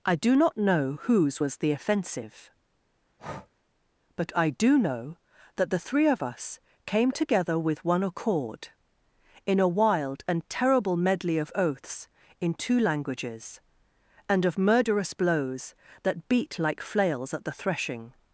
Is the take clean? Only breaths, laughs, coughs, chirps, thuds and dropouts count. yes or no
no